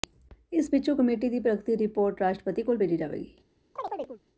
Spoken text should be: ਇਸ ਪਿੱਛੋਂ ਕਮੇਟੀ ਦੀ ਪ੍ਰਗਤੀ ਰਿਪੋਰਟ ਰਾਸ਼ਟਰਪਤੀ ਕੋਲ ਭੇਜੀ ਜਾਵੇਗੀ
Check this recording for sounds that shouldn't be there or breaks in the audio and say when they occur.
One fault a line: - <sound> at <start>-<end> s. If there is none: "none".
- chirp at 3.8-4.2 s